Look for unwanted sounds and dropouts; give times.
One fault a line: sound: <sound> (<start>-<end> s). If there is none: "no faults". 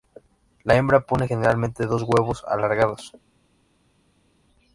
no faults